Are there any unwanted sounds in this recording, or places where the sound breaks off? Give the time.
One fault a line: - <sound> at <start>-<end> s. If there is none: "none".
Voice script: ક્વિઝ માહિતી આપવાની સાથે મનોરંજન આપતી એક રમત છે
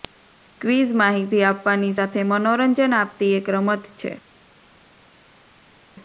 none